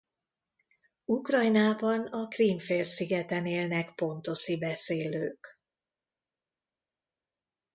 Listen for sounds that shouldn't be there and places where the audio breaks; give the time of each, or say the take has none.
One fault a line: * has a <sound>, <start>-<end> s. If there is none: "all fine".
all fine